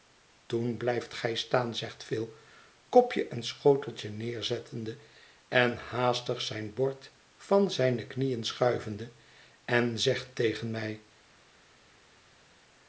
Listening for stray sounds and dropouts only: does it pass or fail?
pass